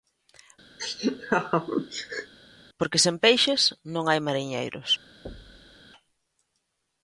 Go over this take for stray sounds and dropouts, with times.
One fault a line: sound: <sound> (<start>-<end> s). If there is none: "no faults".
sound: laugh (0.8-2.3 s)
sound: thud (5.3-5.8 s)